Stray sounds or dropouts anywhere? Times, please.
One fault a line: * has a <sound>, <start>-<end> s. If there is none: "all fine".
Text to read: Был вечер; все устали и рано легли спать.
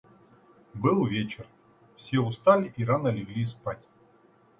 all fine